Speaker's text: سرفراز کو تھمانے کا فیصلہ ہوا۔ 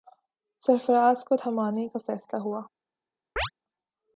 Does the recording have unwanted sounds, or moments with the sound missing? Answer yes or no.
yes